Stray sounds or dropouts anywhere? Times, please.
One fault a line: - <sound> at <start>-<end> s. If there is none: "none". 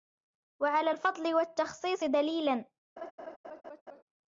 - laugh at 3.0-4.0 s